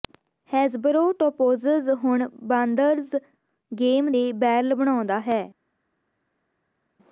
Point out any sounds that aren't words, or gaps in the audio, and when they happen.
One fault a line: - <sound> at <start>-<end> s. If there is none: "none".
none